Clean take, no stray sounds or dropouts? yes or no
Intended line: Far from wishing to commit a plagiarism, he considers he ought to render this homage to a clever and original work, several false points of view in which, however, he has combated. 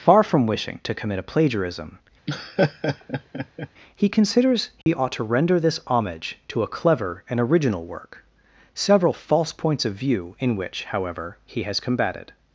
no